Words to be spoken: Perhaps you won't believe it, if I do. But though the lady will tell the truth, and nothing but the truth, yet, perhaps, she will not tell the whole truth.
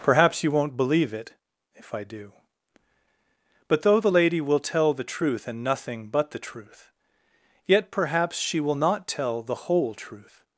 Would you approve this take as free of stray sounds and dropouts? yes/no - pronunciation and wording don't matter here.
yes